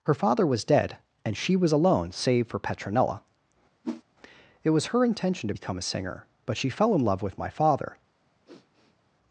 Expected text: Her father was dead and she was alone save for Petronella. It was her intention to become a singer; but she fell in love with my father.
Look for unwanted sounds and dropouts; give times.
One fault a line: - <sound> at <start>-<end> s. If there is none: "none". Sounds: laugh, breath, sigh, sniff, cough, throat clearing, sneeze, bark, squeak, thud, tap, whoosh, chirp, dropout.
- whoosh at 3.8-4.0 s
- sniff at 8.4-9.1 s